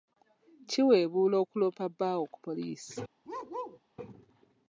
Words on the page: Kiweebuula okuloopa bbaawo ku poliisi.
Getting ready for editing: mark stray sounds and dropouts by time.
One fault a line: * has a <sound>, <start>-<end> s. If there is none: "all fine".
* has a bark, 3.2-3.8 s